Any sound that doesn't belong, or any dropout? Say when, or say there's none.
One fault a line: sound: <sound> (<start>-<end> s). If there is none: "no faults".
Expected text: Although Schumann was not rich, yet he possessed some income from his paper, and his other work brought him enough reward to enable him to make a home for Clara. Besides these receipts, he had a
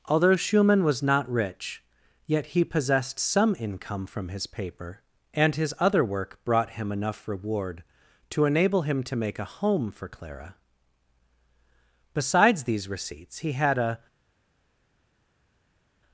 no faults